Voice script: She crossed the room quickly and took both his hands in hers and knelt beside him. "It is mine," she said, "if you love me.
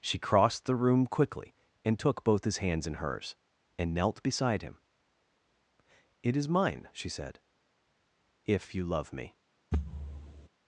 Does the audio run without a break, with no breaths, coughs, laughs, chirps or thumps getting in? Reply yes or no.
no